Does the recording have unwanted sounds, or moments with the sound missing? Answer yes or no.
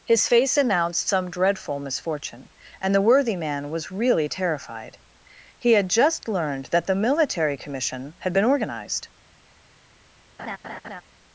yes